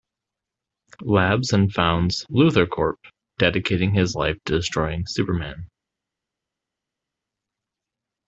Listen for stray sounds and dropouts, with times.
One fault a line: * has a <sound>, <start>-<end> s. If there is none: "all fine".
all fine